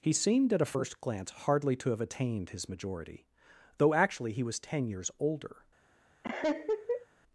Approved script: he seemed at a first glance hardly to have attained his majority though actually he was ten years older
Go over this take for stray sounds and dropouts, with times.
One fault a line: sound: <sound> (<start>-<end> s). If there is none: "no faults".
sound: laugh (6.2-7.1 s)